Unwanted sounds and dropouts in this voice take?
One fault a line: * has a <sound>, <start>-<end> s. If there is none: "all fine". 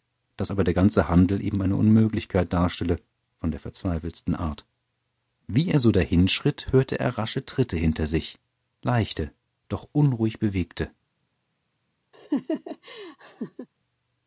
* has a laugh, 12.1-13.7 s